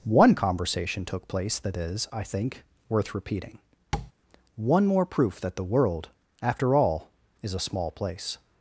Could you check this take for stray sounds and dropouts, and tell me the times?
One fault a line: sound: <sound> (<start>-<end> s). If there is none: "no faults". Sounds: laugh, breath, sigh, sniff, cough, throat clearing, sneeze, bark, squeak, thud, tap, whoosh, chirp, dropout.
sound: tap (3.9-4.1 s)